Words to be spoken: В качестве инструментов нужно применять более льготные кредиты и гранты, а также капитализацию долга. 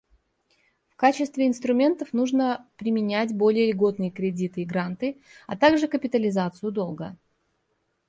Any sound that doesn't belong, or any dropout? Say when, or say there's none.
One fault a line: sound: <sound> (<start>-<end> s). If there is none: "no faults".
no faults